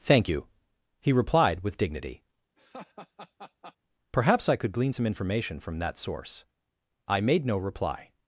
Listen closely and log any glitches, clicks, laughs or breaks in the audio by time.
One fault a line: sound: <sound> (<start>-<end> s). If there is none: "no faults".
sound: laugh (2.6-3.8 s)